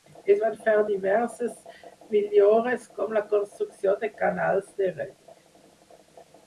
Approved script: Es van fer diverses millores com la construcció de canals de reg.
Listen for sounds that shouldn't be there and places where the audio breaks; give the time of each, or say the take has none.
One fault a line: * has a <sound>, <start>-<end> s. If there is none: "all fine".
all fine